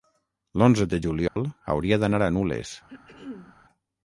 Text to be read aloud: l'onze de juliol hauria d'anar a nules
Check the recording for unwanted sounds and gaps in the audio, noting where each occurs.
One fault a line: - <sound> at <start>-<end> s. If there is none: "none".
- dropout at 1.3-1.4 s
- throat clearing at 2.9-3.6 s